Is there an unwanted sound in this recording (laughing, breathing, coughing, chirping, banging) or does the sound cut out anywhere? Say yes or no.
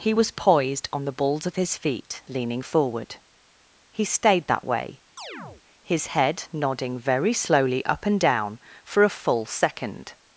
yes